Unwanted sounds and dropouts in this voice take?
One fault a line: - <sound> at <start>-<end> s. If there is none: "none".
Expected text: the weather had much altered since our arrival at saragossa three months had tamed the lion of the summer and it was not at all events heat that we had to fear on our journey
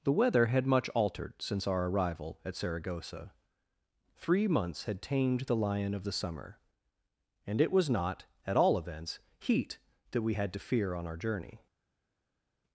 none